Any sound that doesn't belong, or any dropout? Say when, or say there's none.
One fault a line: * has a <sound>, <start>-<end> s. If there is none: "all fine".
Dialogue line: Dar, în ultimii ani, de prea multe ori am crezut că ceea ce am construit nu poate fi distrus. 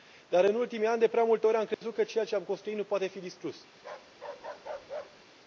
* has a dropout, 1.7-1.8 s
* has a bark, 3.8-5.3 s